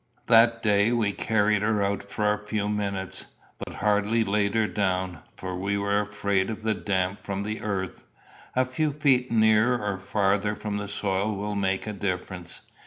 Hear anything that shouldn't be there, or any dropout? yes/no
yes